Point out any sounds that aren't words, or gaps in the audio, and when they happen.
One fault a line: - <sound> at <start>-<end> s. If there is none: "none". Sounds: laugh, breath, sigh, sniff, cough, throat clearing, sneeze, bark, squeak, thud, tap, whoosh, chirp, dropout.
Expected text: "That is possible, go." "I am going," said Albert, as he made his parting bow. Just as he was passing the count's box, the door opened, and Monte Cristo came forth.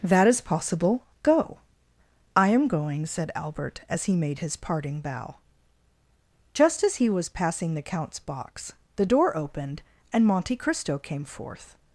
none